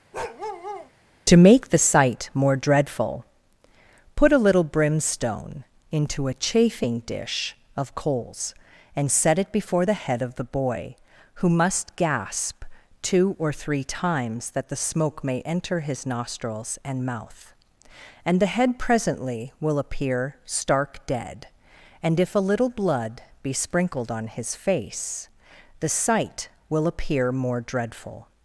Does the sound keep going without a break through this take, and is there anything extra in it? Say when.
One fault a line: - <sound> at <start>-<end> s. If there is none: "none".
- bark at 0.1-0.9 s